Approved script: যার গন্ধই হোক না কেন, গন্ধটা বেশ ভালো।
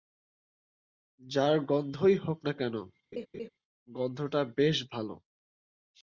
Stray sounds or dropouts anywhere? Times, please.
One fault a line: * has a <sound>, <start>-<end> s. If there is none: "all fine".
* has a laugh, 3.1-3.5 s